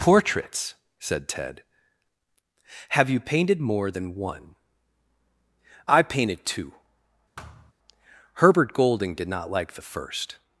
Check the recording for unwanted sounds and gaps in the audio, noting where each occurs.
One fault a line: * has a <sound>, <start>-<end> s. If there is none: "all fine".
* has a thud, 7.4-7.7 s